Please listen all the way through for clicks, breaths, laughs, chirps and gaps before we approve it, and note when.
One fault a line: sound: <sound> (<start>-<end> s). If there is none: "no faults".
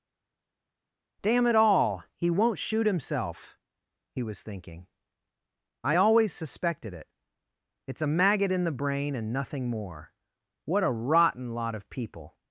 no faults